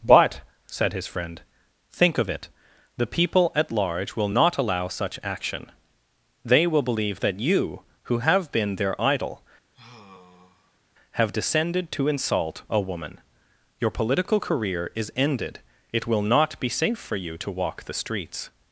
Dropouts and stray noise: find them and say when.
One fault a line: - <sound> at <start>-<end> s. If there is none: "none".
- sigh at 9.7-10.8 s